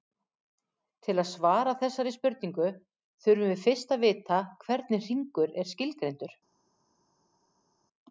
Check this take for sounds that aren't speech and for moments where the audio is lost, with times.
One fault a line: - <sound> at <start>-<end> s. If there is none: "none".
none